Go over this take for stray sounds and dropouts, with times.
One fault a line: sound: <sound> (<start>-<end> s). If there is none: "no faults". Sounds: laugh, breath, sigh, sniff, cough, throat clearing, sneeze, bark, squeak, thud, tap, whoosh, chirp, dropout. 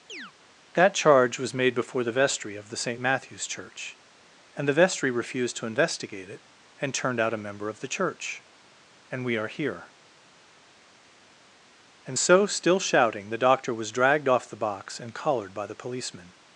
sound: chirp (0.1-0.3 s)